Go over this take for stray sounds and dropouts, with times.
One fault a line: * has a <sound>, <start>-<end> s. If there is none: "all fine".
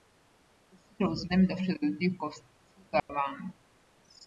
* has a dropout, 3.0-3.1 s